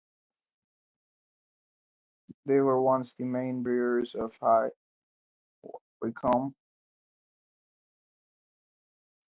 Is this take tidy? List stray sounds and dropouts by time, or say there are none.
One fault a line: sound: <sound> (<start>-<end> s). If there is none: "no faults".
no faults